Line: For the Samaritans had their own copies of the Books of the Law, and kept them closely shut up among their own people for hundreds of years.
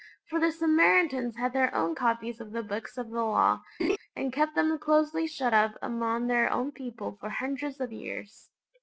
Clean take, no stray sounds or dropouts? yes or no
no